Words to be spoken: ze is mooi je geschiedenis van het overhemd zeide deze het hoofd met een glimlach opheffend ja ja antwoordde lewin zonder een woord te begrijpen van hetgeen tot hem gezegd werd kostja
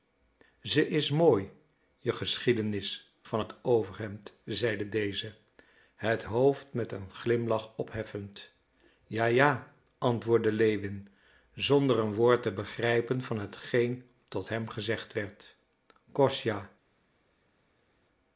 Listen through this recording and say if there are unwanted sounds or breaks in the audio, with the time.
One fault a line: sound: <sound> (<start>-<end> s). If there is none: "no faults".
no faults